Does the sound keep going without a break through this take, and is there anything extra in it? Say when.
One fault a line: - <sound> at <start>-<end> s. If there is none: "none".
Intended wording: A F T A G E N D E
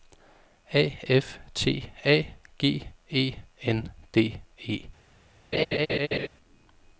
- laugh at 5.5-6.3 s